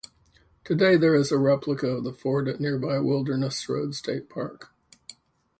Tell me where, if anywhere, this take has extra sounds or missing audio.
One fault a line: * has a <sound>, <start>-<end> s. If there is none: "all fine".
all fine